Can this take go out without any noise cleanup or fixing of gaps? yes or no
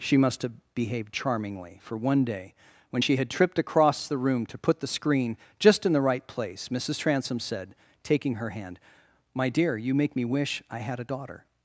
yes